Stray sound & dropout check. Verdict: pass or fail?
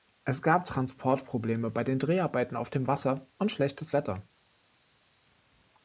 pass